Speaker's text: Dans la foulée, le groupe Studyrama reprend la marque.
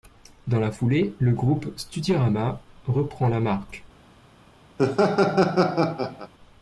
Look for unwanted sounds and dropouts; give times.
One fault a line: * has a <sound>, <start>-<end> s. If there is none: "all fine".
* has a laugh, 4.8-6.3 s